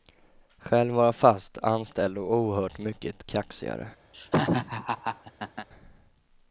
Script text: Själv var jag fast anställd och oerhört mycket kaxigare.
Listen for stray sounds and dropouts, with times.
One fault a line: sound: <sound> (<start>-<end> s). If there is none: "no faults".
sound: laugh (4.1-5.7 s)